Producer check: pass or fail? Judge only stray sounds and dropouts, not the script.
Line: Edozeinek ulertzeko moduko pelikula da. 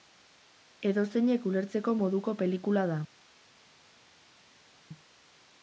pass